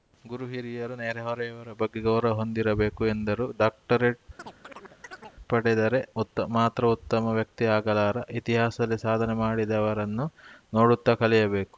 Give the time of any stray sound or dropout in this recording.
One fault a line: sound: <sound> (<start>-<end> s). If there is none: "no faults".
sound: chirp (4.4-5.4 s)